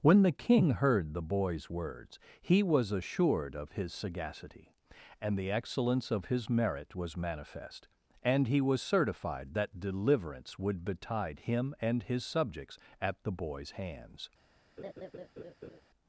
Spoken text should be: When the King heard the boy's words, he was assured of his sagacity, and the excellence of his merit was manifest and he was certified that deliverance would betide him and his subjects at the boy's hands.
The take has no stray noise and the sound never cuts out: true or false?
false